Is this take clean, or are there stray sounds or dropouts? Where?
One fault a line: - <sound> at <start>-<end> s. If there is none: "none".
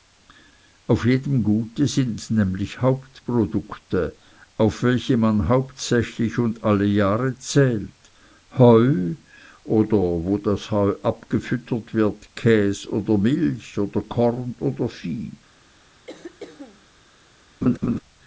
- throat clearing at 16.1-16.9 s
- laugh at 17.6-18.0 s